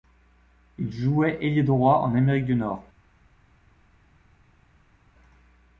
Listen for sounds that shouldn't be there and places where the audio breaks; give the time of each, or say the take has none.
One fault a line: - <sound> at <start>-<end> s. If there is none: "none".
none